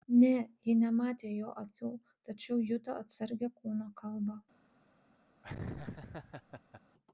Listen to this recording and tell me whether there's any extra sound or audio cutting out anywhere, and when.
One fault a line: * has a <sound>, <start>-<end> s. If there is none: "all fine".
* has a laugh, 5.4-6.8 s